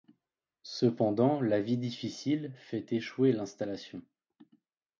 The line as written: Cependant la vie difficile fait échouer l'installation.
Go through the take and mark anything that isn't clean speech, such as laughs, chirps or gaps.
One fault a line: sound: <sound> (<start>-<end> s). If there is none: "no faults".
no faults